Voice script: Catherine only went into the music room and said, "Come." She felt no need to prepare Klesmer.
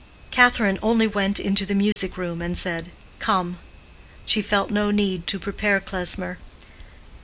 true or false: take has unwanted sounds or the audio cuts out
true